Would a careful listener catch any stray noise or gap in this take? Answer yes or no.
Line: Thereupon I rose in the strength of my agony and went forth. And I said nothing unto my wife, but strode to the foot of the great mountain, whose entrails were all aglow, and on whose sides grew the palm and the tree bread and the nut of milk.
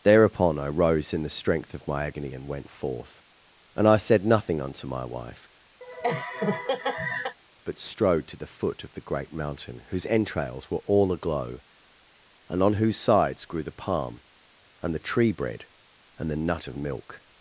yes